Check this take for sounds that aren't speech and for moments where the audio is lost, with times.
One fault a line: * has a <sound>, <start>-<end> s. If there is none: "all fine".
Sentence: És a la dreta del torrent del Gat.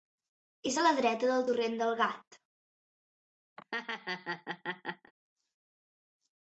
* has a laugh, 3.6-5.1 s